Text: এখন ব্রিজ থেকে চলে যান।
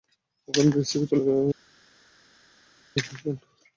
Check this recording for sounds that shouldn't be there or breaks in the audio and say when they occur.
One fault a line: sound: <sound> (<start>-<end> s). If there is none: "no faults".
no faults